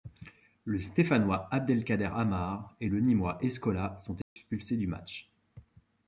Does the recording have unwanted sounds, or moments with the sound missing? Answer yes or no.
yes